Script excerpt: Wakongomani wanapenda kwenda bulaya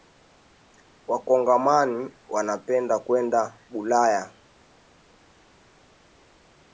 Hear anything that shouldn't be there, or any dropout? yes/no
no